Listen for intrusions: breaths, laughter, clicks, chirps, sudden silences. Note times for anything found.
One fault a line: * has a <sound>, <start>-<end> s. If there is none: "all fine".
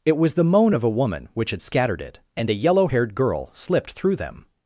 all fine